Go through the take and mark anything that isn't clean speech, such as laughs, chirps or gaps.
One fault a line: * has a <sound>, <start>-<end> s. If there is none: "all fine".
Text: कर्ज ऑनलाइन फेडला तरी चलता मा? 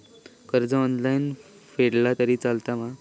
all fine